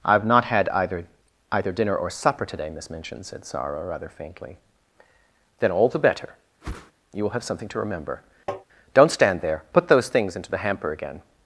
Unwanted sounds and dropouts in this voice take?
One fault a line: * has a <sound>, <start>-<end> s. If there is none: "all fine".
* has a whoosh, 6.6-6.9 s
* has a tap, 8.5-8.7 s